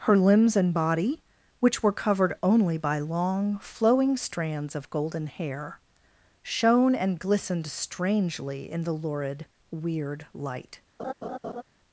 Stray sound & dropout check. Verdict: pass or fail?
fail